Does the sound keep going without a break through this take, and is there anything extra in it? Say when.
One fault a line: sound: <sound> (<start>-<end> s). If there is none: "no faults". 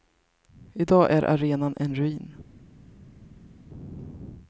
no faults